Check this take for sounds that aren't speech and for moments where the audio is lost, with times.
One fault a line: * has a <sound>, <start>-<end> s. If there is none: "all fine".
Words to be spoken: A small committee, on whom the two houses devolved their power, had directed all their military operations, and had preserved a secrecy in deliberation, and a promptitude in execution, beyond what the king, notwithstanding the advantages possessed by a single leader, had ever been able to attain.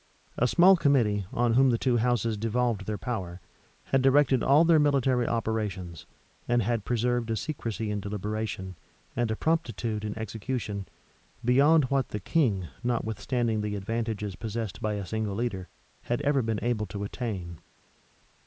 all fine